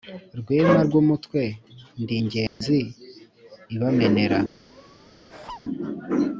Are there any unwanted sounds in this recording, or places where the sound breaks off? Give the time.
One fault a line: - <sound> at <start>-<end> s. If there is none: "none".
- dropout at 2.5-2.6 s
- laugh at 4.7-5.6 s